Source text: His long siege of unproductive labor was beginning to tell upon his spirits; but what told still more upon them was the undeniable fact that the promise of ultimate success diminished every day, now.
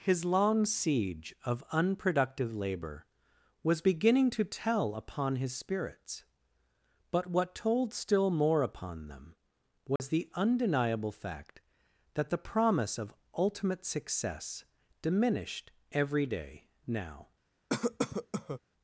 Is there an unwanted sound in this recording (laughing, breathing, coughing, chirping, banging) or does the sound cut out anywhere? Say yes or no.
yes